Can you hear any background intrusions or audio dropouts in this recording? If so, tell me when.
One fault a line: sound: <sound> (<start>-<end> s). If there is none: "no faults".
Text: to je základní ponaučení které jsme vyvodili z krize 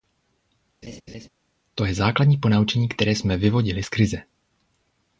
sound: laugh (0.8-1.3 s)